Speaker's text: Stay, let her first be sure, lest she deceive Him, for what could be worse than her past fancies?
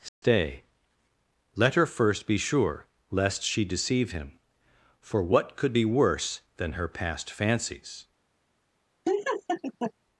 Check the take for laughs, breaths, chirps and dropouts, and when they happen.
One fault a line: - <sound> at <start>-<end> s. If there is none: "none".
- dropout at 0.1-0.2 s
- laugh at 9.0-9.9 s